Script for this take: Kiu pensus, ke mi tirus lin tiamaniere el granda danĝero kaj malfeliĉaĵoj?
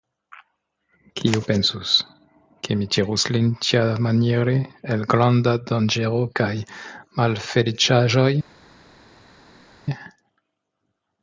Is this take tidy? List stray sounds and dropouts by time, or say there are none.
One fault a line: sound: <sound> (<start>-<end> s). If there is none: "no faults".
no faults